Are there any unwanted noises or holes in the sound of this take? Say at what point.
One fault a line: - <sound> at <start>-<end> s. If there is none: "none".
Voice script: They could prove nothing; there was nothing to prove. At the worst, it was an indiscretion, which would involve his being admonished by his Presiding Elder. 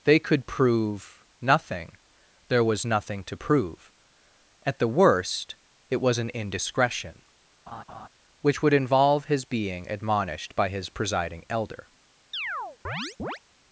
- laugh at 7.7-8.1 s
- chirp at 12.3-13.4 s